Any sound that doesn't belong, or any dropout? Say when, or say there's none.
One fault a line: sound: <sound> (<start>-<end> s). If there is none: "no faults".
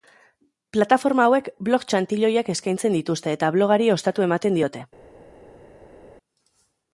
no faults